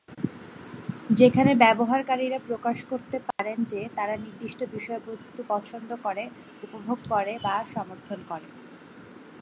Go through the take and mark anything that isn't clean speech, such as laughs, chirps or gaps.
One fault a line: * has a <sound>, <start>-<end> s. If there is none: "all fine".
* has a dropout, 3.3-3.4 s